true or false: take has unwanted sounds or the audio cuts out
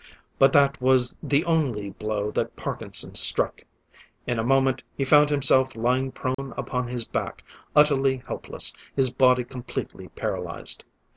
true